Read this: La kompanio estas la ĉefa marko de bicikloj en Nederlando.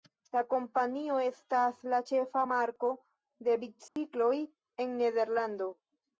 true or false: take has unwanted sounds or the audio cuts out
true